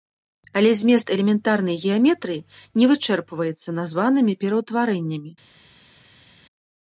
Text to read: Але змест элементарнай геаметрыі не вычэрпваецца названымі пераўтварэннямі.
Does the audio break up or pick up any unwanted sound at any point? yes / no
no